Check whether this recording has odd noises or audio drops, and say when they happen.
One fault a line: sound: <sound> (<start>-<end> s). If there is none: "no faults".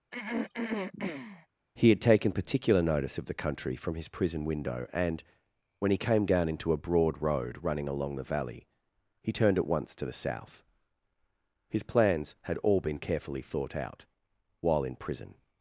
sound: throat clearing (0.1-1.5 s)